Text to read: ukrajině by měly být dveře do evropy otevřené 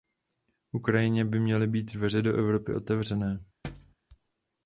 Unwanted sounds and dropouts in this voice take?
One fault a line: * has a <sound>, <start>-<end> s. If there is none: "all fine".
* has a thud, 3.6-4.0 s